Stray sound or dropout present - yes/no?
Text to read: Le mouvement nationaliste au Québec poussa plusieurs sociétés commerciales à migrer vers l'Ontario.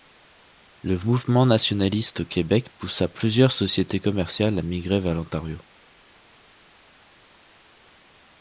no